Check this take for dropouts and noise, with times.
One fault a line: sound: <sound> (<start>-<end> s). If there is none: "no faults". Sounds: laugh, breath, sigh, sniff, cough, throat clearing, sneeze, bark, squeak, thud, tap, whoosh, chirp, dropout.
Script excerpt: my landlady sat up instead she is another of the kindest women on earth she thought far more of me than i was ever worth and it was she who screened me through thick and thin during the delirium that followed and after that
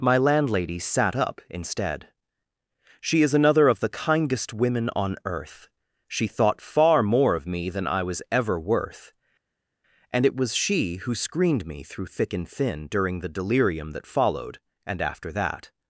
no faults